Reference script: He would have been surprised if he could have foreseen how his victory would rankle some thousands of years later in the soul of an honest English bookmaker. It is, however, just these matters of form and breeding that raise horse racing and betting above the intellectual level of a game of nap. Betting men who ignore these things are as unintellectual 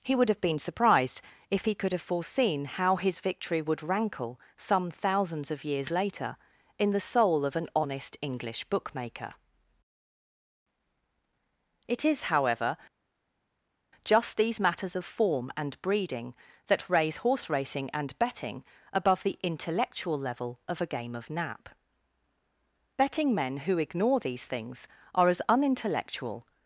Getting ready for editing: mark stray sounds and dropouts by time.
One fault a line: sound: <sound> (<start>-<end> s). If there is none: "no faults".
no faults